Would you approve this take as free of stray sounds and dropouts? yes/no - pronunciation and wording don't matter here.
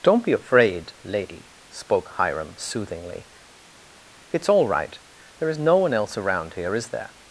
yes